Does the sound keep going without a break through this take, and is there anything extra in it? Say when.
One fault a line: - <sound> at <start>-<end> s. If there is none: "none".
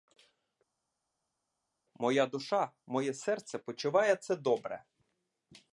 none